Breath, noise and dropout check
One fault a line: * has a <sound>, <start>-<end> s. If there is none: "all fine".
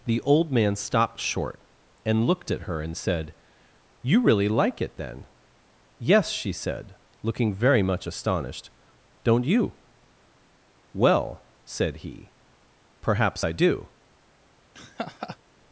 * has a laugh, 14.7-15.4 s